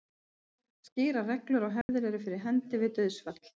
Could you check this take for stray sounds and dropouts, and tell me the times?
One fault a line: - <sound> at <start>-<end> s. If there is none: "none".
- dropout at 1.8-1.9 s